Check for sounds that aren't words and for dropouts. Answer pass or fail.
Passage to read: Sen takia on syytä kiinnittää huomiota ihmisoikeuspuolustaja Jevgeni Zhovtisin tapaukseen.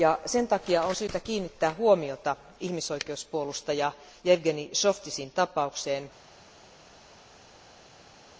pass